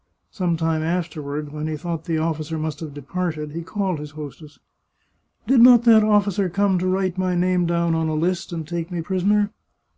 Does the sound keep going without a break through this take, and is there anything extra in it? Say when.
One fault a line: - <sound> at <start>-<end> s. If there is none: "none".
none